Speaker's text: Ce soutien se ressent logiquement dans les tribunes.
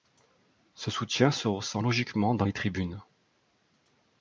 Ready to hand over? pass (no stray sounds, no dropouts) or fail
pass